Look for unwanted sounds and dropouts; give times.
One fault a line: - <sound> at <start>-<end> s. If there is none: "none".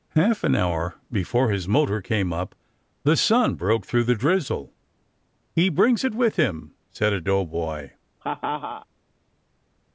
- laugh at 8.2-8.9 s